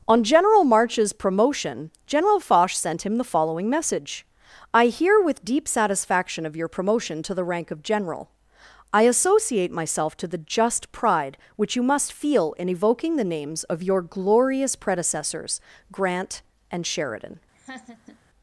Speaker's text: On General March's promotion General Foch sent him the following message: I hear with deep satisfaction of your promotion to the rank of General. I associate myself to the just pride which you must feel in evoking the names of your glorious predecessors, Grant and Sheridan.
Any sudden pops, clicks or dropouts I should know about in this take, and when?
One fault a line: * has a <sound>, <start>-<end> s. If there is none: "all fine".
* has a laugh, 17.5-18.2 s